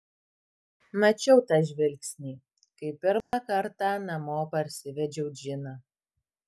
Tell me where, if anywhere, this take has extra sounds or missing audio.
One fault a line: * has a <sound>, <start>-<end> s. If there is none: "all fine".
* has a dropout, 3.2-3.3 s